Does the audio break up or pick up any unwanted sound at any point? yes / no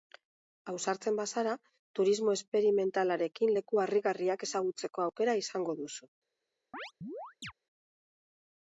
yes